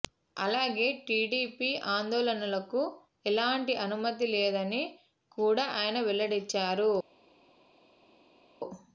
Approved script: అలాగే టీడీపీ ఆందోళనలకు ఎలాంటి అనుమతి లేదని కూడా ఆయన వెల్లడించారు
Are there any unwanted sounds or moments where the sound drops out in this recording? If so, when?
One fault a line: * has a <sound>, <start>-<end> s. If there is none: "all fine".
all fine